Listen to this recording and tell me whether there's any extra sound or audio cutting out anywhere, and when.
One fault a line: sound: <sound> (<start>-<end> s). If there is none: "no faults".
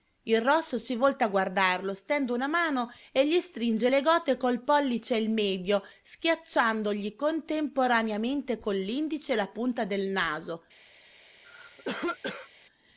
sound: cough (11.4-12.5 s)